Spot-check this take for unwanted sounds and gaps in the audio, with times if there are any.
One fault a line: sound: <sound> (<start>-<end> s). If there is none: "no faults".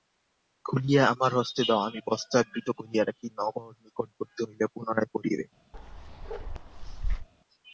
sound: bark (5.7-7.3 s)